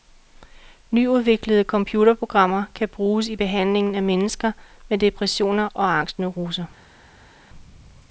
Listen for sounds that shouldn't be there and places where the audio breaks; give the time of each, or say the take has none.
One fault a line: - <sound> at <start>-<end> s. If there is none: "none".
none